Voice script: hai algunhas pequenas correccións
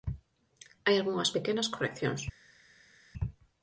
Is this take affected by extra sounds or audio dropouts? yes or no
no